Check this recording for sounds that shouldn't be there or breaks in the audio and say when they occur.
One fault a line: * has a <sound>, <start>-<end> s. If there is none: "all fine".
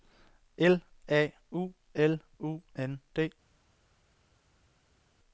all fine